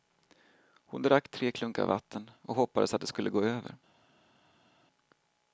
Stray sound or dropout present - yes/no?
no